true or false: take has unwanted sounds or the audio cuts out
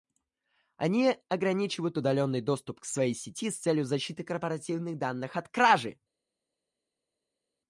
false